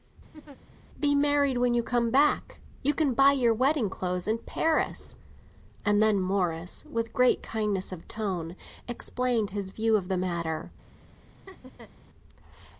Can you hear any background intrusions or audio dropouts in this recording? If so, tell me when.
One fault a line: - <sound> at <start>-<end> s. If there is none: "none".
- laugh at 0.3-0.6 s
- laugh at 11.5-11.9 s